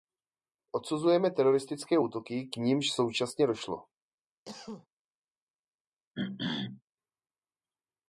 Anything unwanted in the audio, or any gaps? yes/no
yes